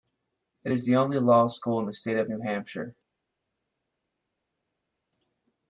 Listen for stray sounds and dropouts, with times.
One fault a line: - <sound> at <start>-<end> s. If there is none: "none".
none